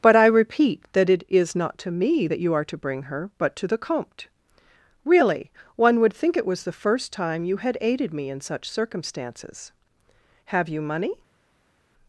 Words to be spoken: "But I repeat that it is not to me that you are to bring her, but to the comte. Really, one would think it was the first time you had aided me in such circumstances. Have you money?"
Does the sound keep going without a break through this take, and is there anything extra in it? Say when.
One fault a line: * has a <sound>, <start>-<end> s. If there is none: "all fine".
all fine